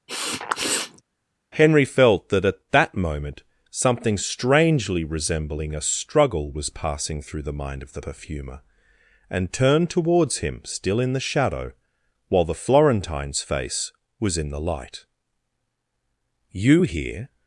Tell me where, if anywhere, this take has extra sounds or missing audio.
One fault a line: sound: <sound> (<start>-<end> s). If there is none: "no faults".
sound: sniff (0.1-1.0 s)